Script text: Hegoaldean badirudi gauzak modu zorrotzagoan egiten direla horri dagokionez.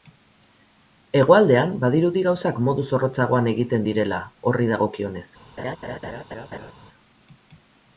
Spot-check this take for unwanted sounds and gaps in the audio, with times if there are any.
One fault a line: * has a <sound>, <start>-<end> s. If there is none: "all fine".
* has a laugh, 5.6-6.7 s